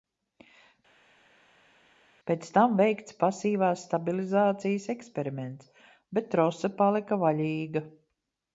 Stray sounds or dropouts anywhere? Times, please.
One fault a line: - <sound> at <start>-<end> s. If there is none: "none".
none